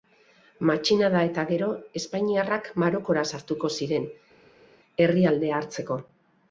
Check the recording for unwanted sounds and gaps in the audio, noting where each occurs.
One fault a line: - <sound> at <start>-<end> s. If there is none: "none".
none